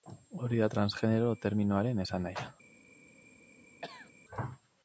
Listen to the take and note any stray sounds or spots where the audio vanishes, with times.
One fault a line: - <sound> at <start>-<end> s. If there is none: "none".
- cough at 3.8-4.1 s